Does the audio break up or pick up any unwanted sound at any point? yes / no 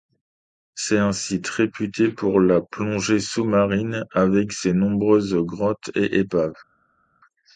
no